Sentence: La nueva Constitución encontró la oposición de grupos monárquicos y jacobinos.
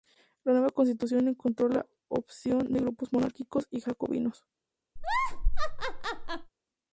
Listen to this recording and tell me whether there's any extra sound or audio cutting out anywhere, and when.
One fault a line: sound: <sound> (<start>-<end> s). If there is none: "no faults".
sound: laugh (5.0-6.5 s)